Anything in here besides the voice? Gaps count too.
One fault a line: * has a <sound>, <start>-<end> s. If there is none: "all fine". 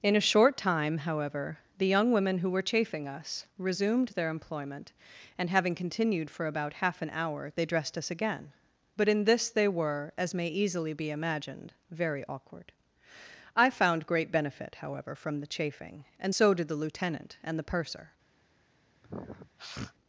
* has a sniff, 19.0-19.9 s